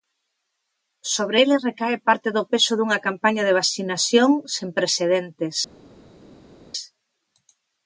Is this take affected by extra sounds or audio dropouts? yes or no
no